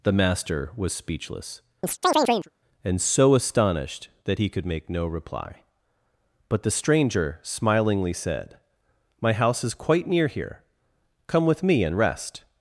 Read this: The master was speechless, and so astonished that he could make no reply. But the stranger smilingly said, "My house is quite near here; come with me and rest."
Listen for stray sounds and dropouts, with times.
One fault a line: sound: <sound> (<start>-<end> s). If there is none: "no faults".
sound: chirp (1.8-2.5 s)